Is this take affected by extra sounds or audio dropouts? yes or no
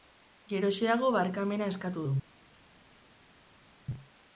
no